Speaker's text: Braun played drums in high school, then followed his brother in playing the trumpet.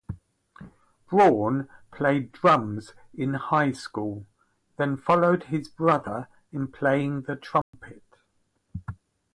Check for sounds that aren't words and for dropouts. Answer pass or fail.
fail